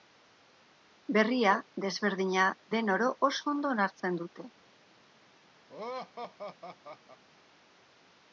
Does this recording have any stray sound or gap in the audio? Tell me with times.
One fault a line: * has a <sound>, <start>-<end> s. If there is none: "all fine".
* has a laugh, 5.7-7.2 s